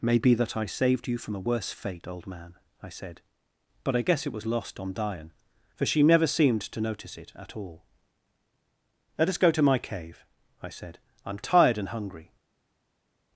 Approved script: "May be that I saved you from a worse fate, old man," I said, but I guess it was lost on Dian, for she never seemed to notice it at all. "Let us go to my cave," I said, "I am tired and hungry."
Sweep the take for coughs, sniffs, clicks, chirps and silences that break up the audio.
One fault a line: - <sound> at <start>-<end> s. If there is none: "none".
none